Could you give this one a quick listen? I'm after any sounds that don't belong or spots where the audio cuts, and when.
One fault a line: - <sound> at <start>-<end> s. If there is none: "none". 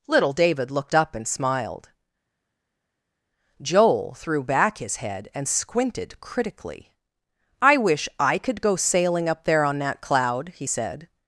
none